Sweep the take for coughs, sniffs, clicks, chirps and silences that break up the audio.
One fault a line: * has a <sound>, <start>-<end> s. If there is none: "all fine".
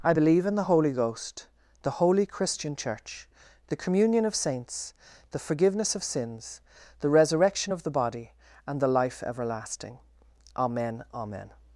all fine